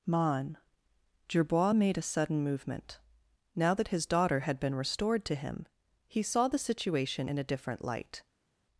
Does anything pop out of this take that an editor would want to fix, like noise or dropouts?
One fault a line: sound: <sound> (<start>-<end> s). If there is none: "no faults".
no faults